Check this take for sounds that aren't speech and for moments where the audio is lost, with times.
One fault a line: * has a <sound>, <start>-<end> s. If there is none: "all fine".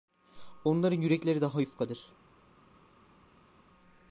all fine